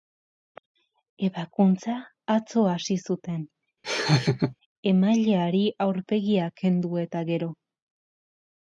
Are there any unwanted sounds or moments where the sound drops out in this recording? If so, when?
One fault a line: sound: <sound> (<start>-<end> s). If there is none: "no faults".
sound: laugh (3.8-4.5 s)